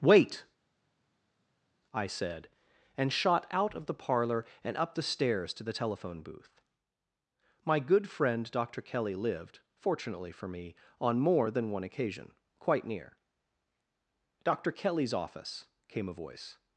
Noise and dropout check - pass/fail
pass